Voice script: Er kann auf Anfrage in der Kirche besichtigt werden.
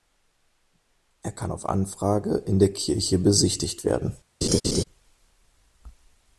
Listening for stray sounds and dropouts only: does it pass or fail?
fail